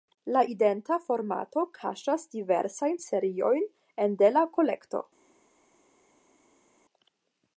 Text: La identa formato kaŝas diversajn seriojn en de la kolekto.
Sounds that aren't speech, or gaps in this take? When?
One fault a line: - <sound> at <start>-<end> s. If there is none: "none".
none